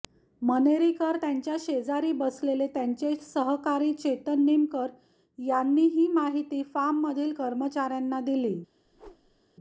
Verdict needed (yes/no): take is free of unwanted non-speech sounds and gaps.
no